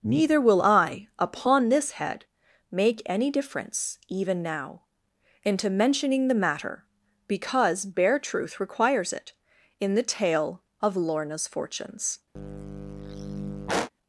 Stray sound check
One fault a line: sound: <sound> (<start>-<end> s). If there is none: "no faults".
sound: sigh (12.4-13.9 s)